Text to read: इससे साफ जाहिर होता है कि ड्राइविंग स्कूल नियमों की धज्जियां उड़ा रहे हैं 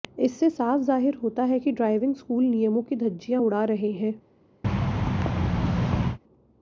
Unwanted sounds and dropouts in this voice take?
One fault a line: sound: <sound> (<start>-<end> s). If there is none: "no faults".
sound: thud (4.6-6.2 s)